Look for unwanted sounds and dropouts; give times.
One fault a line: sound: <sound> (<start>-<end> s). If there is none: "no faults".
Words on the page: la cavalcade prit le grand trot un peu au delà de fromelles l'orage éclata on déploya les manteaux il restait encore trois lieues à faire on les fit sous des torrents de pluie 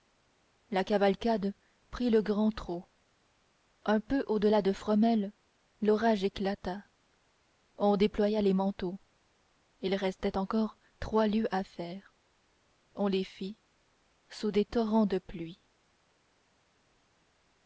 no faults